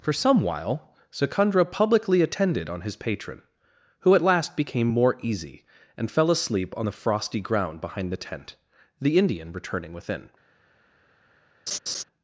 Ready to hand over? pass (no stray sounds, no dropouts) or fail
fail